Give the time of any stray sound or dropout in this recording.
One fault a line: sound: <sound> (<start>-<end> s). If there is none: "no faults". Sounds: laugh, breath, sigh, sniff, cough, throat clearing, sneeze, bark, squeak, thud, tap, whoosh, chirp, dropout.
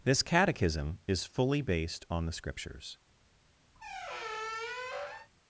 sound: squeak (3.7-5.3 s)